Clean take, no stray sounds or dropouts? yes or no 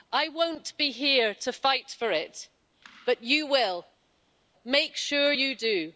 yes